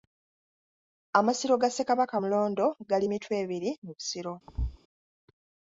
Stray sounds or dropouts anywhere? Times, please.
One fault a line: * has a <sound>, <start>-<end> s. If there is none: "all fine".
* has a thud, 4.5-4.8 s